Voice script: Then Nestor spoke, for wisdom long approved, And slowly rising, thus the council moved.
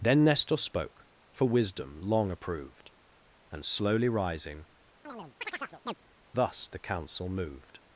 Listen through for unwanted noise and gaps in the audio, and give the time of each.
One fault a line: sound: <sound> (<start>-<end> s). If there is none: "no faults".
sound: chirp (5.0-5.9 s)